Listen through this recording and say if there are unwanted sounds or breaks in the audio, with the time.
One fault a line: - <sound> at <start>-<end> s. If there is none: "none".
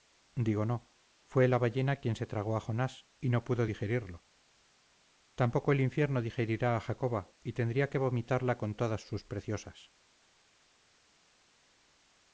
none